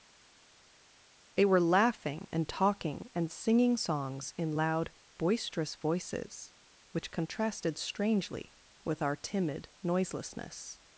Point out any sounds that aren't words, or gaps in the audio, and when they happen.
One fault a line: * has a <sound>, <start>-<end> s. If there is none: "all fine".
all fine